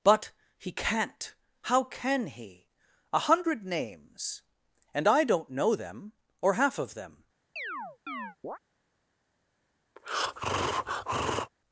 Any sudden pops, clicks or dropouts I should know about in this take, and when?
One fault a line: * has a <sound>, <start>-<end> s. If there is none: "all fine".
* has a chirp, 7.6-8.6 s
* has a breath, 10.0-11.5 s